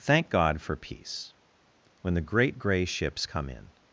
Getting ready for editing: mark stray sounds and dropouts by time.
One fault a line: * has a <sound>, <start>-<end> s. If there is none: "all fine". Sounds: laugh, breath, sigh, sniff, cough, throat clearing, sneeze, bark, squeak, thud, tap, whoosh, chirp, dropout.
all fine